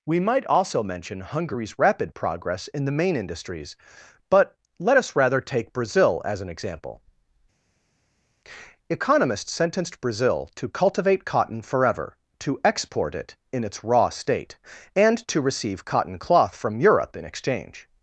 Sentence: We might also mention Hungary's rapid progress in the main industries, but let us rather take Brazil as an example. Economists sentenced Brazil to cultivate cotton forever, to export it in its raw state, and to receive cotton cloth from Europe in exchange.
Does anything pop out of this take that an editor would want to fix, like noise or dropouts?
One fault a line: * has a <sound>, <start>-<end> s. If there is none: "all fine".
all fine